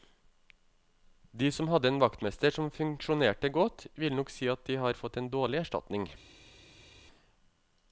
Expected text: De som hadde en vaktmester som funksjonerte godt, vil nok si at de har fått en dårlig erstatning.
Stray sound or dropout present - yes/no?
no